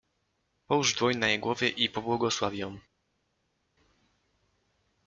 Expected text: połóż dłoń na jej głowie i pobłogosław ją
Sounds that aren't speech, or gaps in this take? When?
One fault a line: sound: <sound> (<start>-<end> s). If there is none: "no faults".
no faults